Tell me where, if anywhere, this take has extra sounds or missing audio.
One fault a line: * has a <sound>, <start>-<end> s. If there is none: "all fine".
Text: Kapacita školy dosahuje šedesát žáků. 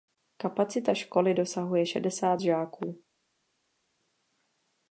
all fine